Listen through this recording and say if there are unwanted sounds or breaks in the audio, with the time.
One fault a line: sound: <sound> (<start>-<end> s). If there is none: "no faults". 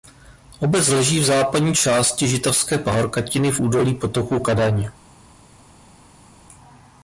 no faults